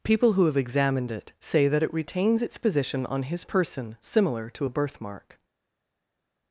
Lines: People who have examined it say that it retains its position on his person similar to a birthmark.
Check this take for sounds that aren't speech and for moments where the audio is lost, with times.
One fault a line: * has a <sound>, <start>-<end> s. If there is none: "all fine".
all fine